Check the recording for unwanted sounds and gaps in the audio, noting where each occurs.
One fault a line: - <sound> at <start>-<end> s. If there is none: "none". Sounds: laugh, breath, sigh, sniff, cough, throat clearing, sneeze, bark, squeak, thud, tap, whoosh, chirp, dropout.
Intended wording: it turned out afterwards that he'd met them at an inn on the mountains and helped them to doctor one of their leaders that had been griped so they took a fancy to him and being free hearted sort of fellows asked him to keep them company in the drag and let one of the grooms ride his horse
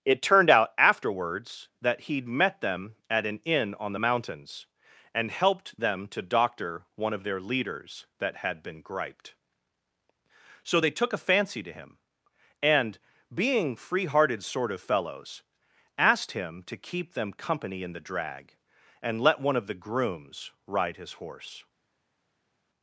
none